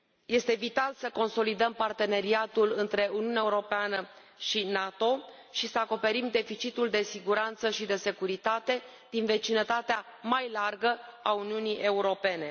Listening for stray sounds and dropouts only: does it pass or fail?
pass